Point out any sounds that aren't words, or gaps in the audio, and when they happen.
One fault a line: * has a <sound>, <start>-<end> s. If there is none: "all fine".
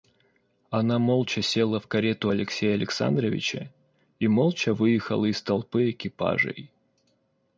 all fine